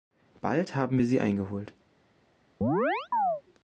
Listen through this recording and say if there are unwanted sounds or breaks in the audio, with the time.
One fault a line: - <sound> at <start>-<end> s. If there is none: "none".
- chirp at 2.6-3.4 s